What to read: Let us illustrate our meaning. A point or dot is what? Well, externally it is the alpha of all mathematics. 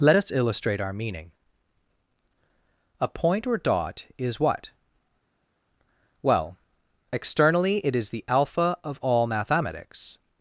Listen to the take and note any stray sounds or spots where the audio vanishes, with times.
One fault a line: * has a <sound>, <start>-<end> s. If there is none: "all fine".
all fine